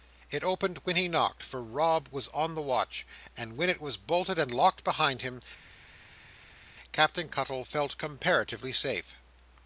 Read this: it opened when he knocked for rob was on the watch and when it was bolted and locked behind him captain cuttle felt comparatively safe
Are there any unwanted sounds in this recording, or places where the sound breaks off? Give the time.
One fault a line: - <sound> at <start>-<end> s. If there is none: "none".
none